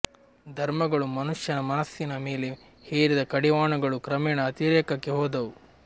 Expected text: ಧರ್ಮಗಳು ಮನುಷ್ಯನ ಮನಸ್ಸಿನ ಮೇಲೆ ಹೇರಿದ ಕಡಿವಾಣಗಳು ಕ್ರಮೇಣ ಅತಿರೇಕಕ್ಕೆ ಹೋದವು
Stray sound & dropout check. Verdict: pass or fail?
pass